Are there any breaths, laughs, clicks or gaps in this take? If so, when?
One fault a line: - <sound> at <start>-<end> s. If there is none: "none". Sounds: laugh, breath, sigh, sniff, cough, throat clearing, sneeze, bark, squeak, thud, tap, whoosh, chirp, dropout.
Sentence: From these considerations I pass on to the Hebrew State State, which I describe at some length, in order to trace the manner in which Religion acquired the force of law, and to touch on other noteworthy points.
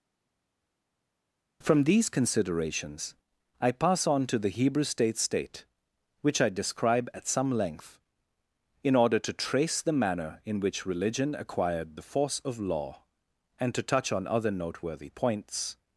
none